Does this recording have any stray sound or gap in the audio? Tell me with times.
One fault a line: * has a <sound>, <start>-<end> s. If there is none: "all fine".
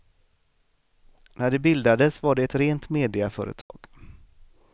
* has a dropout, 3.6-3.7 s